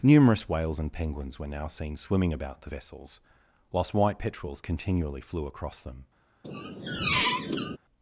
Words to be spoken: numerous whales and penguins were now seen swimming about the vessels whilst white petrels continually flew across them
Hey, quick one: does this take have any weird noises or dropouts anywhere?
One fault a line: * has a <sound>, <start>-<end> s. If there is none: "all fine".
* has a squeak, 6.4-7.8 s